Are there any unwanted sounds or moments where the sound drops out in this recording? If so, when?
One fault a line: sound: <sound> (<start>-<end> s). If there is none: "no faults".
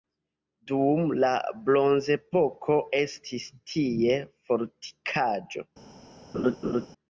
sound: laugh (6.3-6.9 s)